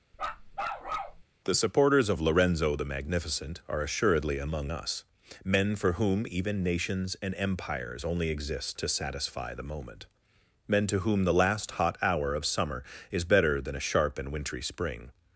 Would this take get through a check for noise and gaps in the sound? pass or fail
fail